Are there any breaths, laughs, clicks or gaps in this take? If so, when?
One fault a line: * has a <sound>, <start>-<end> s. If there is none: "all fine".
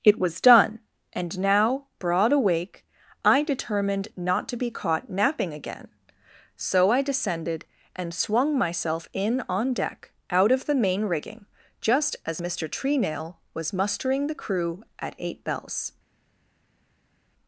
all fine